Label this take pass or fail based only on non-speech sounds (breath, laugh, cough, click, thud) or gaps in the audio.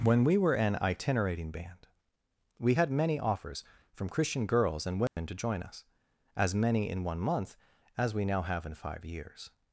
fail